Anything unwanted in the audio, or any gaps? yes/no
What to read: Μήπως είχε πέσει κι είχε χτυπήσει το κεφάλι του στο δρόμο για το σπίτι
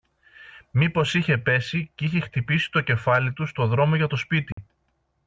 yes